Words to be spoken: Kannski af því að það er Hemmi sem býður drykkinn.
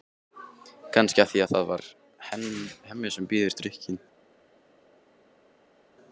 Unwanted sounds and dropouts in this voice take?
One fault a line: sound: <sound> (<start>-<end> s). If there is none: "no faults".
no faults